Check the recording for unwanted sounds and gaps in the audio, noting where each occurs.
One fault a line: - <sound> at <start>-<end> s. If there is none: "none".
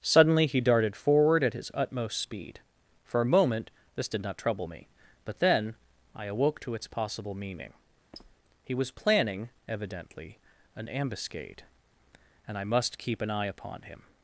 - squeak at 8.1-8.4 s